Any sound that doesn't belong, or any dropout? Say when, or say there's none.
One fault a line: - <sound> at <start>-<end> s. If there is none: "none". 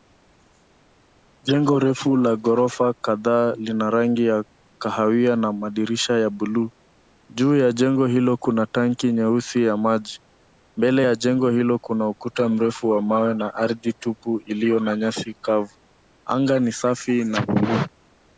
none